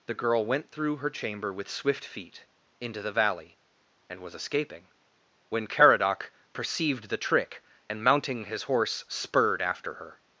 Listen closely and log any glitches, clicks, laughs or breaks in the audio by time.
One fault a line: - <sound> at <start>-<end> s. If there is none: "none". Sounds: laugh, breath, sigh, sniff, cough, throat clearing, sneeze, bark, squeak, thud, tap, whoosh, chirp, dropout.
none